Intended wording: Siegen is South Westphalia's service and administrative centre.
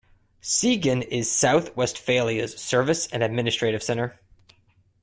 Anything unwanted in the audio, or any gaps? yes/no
no